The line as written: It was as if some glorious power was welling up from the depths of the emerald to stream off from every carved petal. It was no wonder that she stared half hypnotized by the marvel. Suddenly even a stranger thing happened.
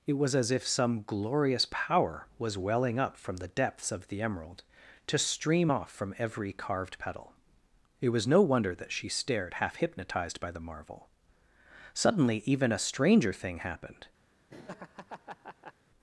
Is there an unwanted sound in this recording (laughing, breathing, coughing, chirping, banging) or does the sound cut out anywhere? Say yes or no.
yes